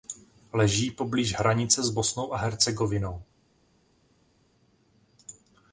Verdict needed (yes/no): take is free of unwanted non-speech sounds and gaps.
yes